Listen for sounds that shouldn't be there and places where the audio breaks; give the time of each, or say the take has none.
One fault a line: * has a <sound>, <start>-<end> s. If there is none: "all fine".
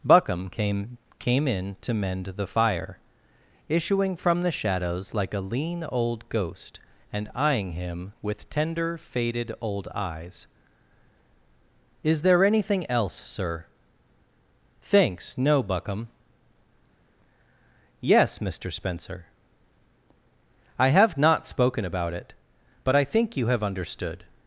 all fine